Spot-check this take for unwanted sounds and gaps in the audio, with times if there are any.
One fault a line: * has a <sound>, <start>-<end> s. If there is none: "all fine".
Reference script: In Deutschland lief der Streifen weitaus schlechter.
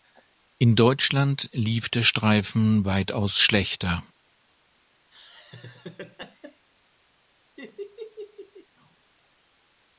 * has a laugh, 5.1-6.7 s
* has a laugh, 7.6-8.7 s